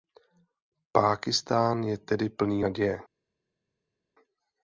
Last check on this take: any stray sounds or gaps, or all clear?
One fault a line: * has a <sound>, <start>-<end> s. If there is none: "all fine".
all fine